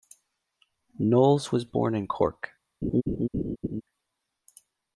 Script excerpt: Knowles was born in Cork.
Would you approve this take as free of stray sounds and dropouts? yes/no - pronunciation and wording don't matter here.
no